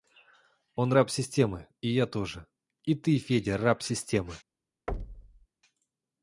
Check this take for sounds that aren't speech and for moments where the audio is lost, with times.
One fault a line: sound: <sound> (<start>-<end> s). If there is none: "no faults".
sound: thud (4.9-5.5 s)